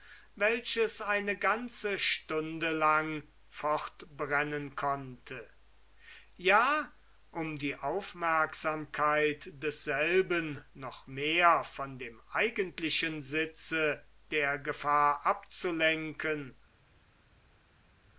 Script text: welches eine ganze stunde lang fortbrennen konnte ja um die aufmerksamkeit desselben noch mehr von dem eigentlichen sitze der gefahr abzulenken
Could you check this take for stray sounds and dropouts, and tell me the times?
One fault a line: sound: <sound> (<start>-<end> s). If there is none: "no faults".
no faults